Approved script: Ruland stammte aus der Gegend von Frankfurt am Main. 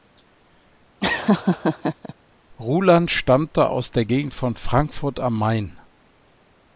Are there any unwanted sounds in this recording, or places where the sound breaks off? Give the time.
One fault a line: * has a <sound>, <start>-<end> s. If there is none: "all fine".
* has a laugh, 1.0-2.1 s